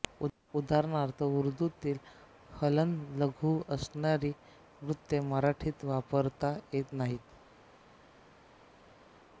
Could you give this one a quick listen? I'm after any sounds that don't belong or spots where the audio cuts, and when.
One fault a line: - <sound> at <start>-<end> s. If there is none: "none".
none